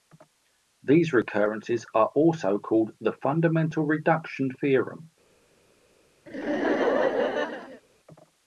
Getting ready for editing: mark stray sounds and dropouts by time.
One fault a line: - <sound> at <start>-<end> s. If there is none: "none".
- laugh at 6.3-7.8 s